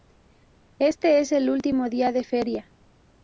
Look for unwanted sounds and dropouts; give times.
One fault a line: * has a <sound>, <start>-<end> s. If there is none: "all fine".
all fine